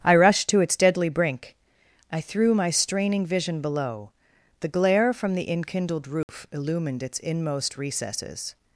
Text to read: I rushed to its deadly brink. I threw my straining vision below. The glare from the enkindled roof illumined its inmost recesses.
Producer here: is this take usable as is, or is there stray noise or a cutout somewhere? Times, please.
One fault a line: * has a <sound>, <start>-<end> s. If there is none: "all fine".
* has a dropout, 6.2-6.3 s